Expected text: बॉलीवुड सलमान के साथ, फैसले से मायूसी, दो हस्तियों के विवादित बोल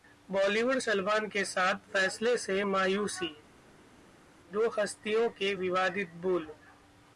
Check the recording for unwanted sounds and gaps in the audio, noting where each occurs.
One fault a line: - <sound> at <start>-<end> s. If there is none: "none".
none